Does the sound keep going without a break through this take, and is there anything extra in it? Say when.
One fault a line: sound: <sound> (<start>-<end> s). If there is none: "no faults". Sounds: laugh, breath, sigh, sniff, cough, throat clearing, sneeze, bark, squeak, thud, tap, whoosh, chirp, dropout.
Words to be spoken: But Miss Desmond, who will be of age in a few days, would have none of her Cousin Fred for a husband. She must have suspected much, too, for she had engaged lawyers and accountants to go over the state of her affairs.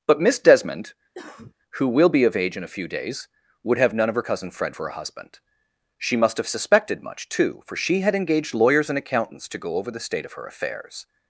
sound: cough (1.1-1.5 s)